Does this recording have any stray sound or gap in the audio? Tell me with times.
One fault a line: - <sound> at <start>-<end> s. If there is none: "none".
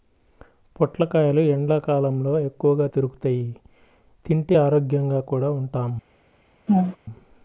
- laugh at 6.7-7.0 s